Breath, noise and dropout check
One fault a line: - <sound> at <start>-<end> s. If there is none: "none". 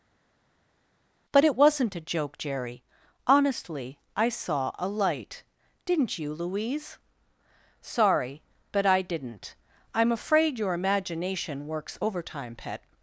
none